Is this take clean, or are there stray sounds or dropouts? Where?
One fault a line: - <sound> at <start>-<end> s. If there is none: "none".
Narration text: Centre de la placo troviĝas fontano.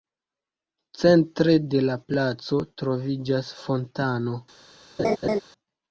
- laugh at 5.0-5.4 s